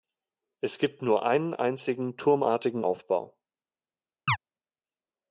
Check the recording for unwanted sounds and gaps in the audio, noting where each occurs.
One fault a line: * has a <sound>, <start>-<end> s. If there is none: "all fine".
* has a chirp, 4.3-4.4 s